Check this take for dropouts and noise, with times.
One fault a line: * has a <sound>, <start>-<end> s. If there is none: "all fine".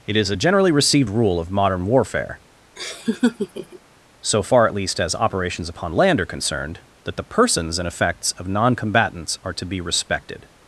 * has a laugh, 2.8-3.8 s